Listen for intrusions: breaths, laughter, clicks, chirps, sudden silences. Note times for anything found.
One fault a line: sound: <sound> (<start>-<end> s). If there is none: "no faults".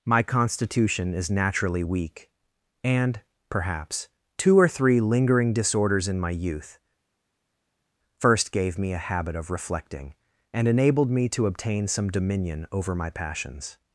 no faults